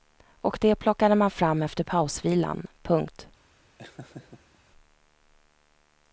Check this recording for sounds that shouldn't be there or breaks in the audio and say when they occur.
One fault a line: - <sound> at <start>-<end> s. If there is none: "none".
- laugh at 3.8-4.6 s